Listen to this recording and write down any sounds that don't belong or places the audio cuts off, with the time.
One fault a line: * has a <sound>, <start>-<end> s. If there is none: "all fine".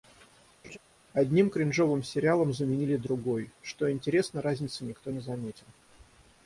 * has a laugh, 0.6-0.8 s